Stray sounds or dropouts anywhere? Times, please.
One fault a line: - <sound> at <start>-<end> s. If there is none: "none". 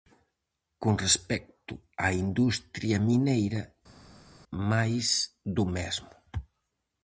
none